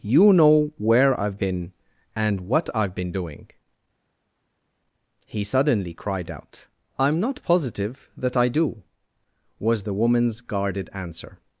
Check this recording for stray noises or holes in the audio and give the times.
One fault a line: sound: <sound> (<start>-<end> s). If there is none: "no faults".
no faults